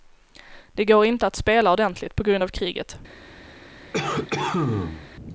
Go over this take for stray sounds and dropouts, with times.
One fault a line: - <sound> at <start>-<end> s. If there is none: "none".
- cough at 3.9-5.1 s